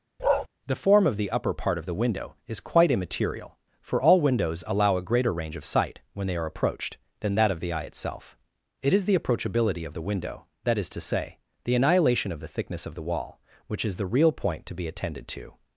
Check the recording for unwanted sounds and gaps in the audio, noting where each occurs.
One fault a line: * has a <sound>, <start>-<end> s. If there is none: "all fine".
* has a bark, 0.2-0.5 s